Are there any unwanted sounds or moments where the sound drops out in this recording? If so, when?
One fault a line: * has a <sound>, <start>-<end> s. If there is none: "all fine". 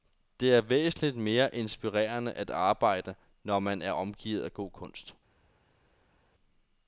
all fine